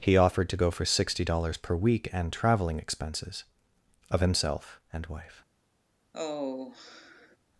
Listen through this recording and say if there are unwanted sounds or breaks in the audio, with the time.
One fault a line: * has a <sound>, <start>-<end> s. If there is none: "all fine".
* has a sigh, 6.1-7.4 s